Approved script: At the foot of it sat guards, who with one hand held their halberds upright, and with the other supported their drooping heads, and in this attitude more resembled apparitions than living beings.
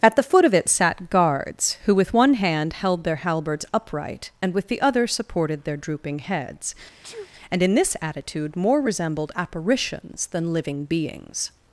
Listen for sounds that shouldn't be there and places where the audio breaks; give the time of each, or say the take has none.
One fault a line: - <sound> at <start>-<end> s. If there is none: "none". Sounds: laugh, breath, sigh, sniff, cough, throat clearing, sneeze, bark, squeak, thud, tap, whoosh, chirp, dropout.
- sneeze at 7.0-7.3 s